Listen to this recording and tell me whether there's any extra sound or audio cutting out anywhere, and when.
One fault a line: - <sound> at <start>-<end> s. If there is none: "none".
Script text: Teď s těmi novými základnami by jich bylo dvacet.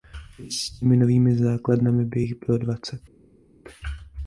none